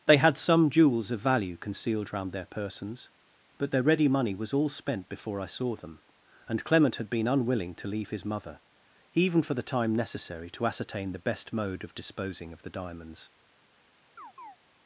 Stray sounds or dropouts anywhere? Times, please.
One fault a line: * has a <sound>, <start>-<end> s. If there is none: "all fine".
* has a chirp, 14.2-14.6 s